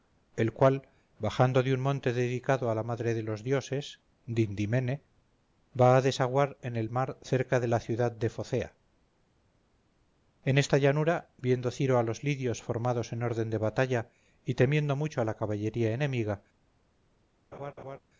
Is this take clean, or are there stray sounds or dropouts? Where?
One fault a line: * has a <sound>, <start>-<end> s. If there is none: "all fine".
* has a laugh, 17.5-18.0 s